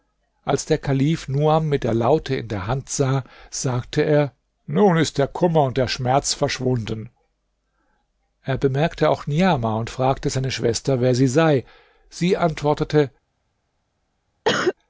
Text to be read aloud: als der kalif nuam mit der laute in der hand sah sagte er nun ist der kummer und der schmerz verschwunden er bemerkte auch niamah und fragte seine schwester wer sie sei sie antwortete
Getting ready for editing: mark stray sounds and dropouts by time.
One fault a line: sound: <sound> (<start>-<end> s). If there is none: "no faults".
sound: cough (14.4-14.7 s)